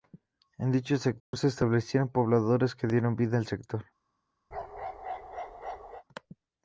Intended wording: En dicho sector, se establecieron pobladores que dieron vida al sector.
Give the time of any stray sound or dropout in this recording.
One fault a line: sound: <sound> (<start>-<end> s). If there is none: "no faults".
sound: dropout (1.2-1.3 s)
sound: bark (4.5-6.0 s)